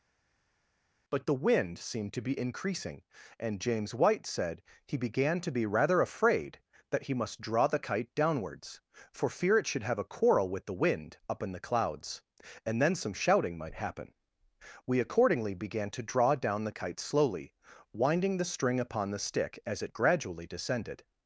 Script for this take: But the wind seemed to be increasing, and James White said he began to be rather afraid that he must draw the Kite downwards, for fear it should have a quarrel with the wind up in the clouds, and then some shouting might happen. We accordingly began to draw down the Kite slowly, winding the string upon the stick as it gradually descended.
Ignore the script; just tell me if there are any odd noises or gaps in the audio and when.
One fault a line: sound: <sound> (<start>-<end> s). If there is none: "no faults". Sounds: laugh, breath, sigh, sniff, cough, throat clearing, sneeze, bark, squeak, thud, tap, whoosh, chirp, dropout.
no faults